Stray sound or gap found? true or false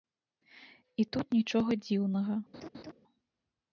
true